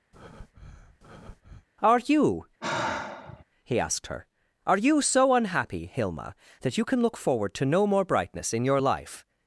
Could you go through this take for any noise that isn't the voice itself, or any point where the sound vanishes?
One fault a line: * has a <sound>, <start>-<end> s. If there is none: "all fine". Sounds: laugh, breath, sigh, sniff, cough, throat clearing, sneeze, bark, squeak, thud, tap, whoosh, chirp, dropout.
* has a breath, 0.1-1.7 s
* has a sigh, 2.6-3.4 s